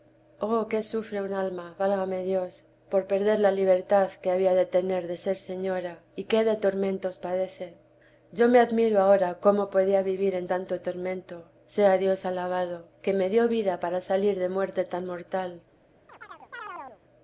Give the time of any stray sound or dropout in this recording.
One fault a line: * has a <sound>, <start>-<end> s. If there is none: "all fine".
* has a chirp, 16.1-17.0 s